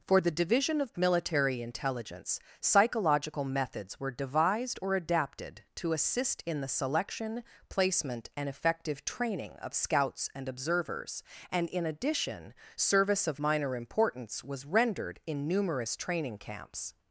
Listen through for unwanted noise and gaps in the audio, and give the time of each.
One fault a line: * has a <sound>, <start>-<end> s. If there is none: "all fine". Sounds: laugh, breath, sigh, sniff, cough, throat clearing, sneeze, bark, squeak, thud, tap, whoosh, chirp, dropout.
all fine